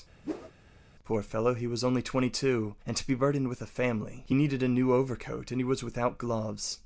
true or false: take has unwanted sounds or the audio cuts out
true